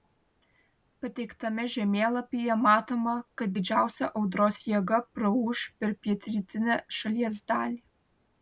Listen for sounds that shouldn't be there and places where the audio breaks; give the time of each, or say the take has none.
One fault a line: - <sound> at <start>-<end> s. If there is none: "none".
none